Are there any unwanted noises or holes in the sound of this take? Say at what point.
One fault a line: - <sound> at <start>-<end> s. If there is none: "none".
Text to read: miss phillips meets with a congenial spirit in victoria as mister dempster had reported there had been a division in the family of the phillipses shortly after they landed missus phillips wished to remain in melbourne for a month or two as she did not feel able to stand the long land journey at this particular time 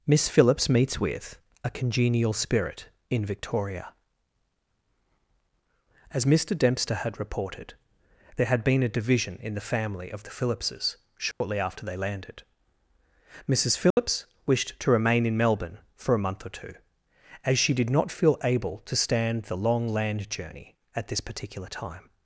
- dropout at 11.3-11.4 s
- dropout at 13.9-14.0 s